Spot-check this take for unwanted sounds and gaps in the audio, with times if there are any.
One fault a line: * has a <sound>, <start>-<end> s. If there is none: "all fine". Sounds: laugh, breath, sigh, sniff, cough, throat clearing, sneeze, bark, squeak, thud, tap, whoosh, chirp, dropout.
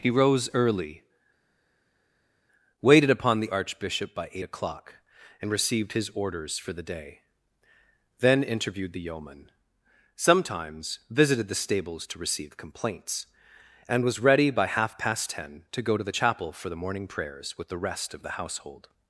all fine